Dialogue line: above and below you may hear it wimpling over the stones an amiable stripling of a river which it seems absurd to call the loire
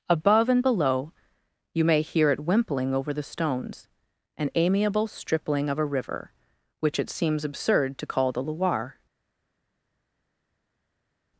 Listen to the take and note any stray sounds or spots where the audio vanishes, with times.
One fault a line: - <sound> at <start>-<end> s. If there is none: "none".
none